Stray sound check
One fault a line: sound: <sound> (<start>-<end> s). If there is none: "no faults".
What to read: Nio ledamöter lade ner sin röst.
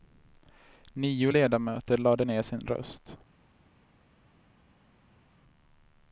no faults